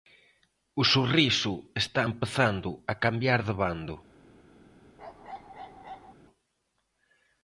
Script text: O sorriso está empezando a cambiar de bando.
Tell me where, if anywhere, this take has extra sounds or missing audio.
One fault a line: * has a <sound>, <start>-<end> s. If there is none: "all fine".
* has a bark, 5.0-6.1 s